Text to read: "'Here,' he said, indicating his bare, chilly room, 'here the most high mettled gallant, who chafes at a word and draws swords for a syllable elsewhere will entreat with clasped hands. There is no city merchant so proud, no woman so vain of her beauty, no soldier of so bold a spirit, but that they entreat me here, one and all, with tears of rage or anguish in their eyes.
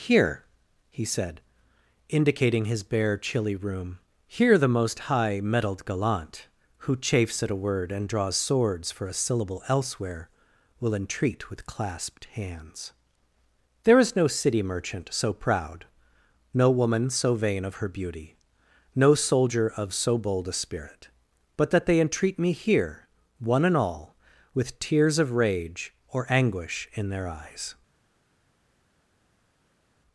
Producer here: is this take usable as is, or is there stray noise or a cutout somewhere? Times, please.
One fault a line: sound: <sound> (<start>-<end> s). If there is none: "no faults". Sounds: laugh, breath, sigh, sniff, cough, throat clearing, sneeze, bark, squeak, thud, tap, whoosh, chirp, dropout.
no faults